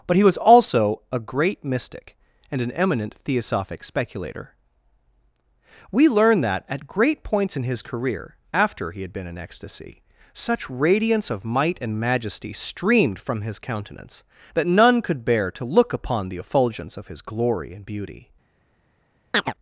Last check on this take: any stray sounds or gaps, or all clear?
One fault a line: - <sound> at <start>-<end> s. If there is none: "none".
- chirp at 19.3-19.5 s